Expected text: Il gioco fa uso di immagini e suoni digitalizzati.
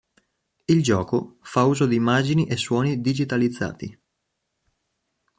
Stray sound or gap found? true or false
false